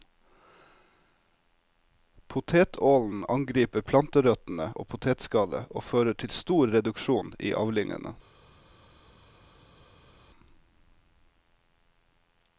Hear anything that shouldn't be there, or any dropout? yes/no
no